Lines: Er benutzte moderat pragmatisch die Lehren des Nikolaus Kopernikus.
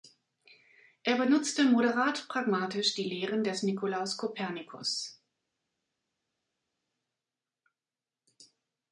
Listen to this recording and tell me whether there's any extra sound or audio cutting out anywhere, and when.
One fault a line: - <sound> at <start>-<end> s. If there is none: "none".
none